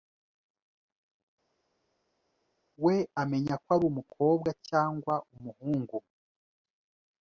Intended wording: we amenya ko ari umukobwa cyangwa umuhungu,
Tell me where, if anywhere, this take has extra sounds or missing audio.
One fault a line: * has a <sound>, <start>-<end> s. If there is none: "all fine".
all fine